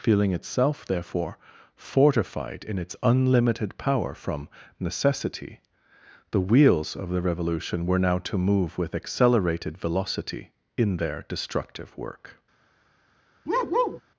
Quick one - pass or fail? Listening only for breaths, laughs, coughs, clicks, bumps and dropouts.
fail